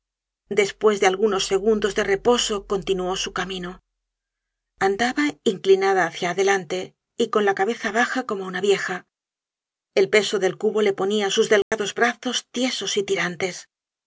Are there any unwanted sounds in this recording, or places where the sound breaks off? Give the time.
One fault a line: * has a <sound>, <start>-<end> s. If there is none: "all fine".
* has a dropout, 11.6-11.7 s